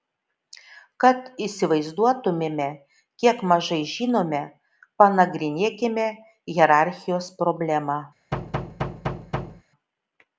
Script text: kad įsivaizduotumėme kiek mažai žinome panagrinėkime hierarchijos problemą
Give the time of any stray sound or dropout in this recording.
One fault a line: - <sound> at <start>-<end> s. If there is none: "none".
- thud at 8.3-9.6 s